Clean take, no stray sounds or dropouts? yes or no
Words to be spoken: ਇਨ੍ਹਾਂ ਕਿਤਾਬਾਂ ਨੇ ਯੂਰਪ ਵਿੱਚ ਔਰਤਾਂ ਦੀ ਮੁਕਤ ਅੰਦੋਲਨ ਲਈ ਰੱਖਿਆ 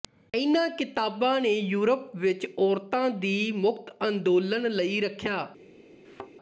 no